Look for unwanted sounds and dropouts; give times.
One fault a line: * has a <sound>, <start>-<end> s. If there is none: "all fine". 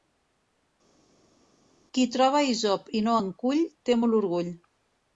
all fine